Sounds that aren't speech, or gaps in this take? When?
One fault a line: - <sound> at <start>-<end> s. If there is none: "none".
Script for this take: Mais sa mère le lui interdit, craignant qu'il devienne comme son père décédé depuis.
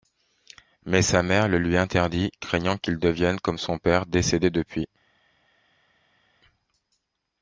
none